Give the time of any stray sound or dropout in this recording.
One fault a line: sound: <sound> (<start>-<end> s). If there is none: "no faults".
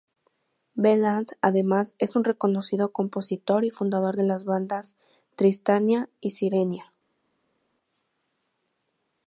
no faults